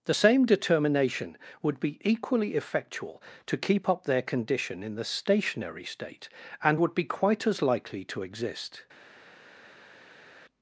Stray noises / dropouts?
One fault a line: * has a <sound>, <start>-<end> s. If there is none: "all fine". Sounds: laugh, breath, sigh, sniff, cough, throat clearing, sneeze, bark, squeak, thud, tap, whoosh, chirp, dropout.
all fine